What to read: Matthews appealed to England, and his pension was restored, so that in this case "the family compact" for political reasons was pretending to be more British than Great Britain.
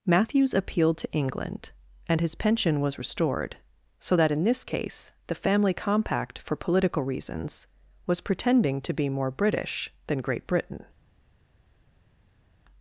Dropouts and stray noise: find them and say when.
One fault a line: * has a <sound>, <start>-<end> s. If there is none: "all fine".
all fine